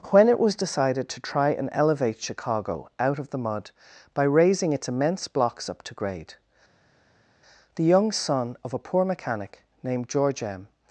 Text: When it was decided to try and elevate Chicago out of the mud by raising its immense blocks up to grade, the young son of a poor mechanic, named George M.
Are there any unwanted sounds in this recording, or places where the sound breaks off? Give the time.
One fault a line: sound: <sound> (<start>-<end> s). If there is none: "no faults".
no faults